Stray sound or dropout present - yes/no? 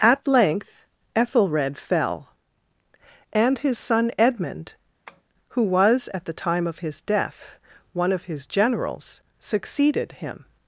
yes